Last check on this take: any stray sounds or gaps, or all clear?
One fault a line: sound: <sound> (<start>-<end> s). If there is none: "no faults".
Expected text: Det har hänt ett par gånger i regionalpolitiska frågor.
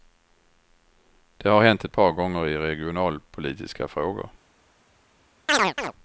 sound: chirp (5.5-5.9 s)